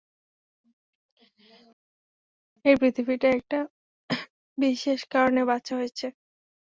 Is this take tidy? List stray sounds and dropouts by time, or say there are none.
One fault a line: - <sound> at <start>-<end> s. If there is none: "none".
none